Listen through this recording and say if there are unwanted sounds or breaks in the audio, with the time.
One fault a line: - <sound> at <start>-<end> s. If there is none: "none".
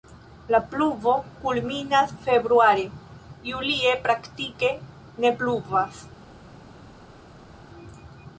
none